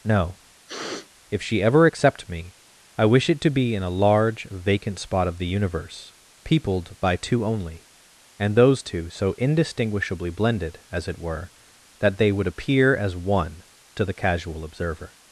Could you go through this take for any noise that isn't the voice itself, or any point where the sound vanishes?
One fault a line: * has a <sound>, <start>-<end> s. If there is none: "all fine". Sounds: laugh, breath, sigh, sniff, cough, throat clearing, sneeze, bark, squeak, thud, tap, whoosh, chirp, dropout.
* has a sniff, 0.7-1.1 s